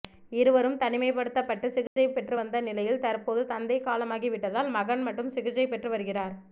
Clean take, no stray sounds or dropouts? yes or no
no